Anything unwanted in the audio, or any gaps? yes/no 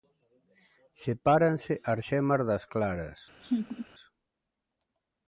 yes